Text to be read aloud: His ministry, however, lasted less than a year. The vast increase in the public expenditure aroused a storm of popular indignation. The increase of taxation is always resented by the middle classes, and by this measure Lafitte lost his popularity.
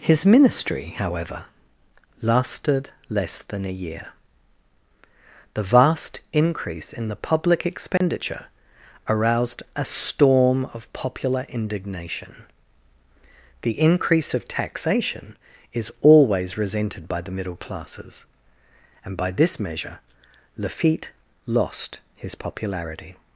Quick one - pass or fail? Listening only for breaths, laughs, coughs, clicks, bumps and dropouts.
fail